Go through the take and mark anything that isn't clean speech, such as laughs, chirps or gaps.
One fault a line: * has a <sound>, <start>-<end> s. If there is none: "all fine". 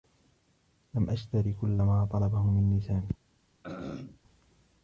* has a throat clearing, 3.6-4.2 s